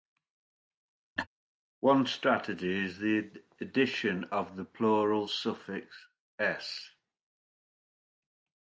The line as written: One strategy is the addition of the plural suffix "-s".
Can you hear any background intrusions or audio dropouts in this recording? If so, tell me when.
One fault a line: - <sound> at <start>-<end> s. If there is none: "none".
- laugh at 1.2-1.3 s